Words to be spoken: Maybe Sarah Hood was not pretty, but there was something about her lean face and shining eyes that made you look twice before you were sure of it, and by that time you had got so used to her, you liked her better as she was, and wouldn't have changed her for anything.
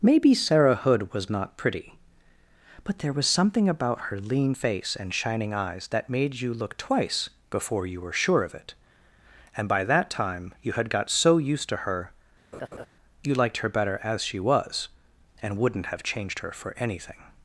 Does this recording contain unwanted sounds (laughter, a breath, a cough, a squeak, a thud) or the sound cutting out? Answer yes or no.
yes